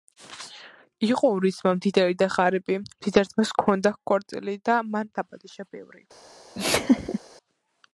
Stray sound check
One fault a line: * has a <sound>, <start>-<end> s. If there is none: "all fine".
* has a laugh, 6.5-7.2 s